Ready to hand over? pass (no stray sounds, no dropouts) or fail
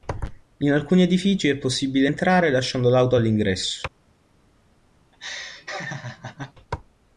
fail